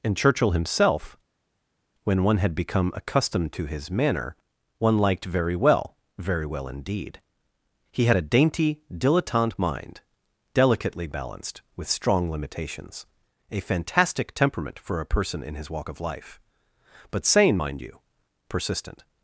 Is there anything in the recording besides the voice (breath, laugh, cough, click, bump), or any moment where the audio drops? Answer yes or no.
no